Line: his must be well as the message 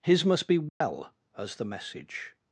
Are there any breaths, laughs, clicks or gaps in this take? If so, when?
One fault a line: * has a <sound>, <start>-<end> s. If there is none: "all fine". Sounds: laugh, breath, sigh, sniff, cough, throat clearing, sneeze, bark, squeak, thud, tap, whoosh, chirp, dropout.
* has a dropout, 0.7-0.8 s